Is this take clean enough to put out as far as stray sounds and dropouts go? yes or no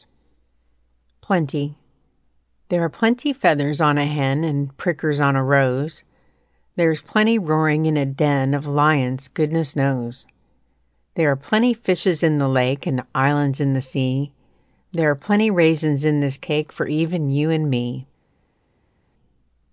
yes